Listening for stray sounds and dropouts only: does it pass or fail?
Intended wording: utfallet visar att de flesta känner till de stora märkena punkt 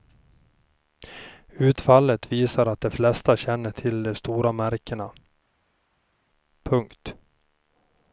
pass